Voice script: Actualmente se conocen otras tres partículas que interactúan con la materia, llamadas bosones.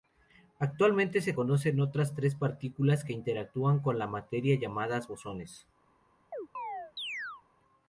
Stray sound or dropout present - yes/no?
yes